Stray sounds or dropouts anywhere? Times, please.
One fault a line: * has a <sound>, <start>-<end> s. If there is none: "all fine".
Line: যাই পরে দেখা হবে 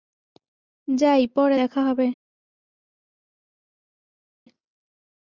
all fine